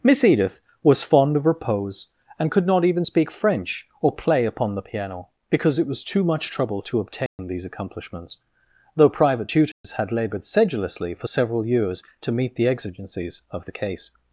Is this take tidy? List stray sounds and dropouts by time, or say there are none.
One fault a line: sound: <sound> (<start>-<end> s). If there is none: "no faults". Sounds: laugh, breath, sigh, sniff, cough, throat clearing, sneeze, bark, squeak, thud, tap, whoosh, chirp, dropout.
sound: dropout (7.3-7.4 s)
sound: dropout (9.7-9.8 s)